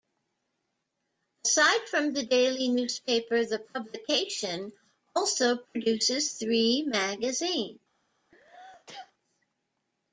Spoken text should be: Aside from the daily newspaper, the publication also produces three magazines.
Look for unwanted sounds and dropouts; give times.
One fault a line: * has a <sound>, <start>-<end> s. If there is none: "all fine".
* has a sneeze, 8.3-9.1 s